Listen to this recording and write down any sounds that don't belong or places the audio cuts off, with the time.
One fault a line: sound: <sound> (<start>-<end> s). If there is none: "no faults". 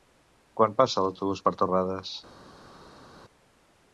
no faults